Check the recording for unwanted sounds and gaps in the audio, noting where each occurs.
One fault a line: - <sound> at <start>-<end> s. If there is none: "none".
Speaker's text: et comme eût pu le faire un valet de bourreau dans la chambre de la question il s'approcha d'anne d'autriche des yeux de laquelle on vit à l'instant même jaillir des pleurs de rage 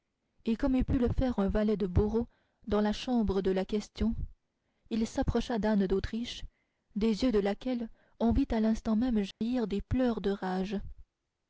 - dropout at 9.3-9.4 s